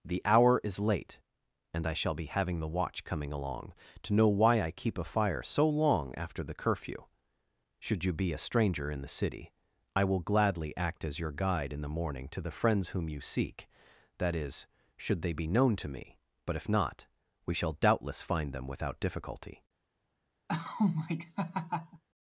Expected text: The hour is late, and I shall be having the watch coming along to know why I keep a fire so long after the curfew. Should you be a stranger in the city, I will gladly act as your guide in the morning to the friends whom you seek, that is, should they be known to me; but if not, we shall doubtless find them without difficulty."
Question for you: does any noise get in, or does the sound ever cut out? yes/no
yes